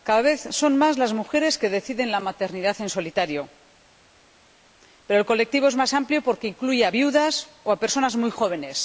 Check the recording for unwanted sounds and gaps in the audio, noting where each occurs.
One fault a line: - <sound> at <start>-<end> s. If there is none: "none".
none